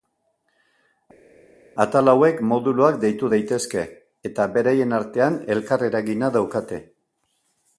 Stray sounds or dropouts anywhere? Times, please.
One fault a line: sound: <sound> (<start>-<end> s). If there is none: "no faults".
no faults